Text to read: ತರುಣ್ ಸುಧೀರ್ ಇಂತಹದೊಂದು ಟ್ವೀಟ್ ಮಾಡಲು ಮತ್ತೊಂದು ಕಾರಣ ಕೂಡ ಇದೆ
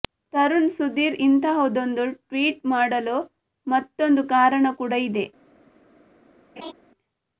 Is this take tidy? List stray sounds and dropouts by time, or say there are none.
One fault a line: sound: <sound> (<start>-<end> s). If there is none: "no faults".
sound: laugh (6.6-6.7 s)